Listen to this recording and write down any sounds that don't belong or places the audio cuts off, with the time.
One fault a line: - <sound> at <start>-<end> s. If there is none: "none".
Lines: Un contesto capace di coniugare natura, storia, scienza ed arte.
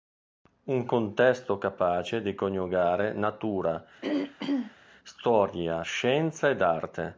- throat clearing at 4.0-4.7 s